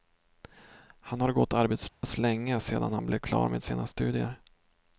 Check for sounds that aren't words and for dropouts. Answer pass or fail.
fail